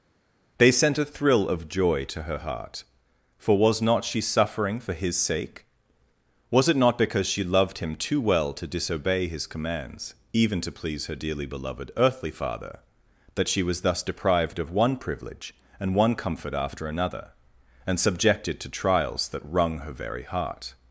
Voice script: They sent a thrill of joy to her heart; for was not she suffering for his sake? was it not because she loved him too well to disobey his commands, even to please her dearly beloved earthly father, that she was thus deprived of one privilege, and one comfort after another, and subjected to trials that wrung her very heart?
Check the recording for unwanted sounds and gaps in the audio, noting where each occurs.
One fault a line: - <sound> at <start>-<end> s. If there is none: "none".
none